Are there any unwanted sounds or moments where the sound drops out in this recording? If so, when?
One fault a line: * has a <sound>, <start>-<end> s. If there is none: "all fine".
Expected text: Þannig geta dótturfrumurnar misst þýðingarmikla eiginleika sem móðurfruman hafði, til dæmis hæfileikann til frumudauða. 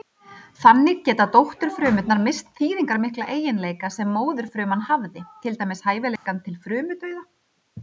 * has a dropout, 6.2-6.3 s